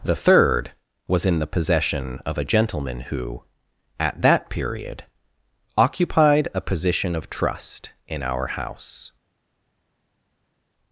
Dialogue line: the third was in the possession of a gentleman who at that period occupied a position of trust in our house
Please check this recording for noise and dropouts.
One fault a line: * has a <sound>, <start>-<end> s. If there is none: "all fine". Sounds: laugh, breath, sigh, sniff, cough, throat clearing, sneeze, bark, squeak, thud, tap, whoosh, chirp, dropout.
all fine